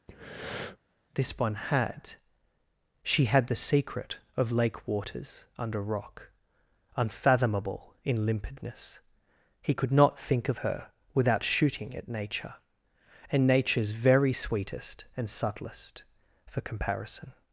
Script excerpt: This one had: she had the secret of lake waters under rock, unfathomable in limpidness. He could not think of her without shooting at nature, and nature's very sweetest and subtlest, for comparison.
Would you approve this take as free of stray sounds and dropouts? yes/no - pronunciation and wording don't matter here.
no